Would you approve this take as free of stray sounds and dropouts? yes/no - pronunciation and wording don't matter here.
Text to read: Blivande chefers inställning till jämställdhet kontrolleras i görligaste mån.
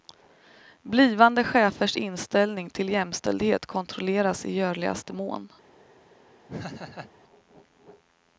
no